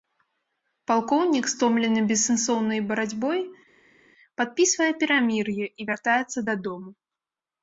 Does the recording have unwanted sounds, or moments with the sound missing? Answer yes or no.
no